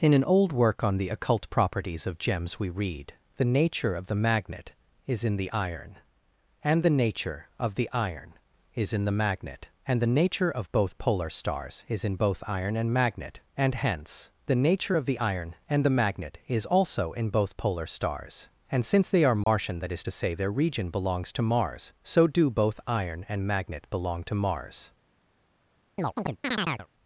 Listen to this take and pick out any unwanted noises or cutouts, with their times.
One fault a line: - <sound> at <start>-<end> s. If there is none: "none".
- dropout at 19.4-19.5 s
- chirp at 26.0-26.9 s